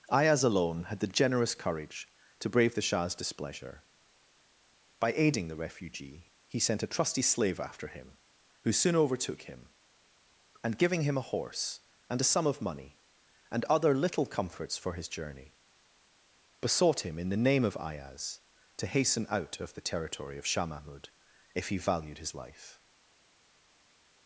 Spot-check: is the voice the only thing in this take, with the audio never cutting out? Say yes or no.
yes